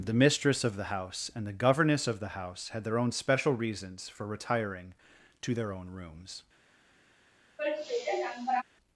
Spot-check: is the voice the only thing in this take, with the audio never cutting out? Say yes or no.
no